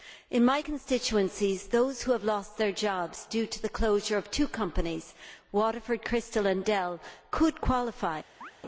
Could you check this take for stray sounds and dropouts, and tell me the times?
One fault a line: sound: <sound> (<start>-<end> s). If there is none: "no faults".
sound: chirp (8.4-8.5 s)